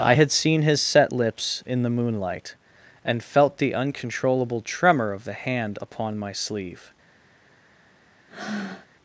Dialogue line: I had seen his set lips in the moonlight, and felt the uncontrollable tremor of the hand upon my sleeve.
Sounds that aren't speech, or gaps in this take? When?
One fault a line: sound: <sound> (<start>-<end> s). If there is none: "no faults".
sound: breath (8.3-8.9 s)